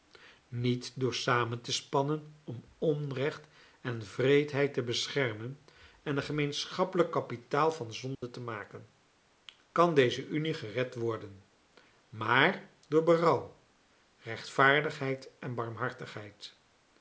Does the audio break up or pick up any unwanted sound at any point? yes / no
yes